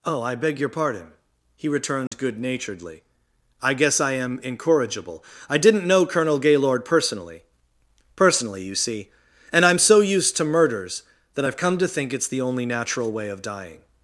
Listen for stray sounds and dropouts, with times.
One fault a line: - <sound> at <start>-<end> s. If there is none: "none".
- dropout at 2.1-2.1 s